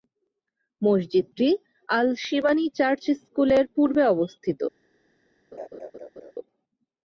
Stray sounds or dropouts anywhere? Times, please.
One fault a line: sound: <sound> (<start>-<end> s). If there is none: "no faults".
sound: laugh (5.5-6.3 s)